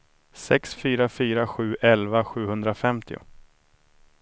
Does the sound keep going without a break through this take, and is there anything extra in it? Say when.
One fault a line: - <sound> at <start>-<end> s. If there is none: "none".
none